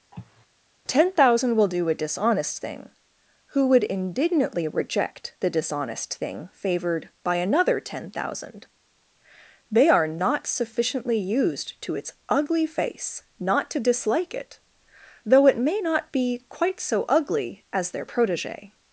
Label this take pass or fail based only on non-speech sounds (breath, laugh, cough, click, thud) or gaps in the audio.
fail